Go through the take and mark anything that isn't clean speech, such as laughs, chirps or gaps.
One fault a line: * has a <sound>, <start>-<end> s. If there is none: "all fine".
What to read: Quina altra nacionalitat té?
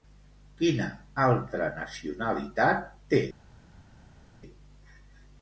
all fine